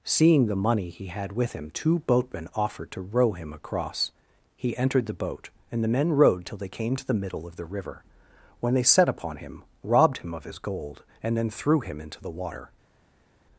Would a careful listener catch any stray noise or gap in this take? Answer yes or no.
no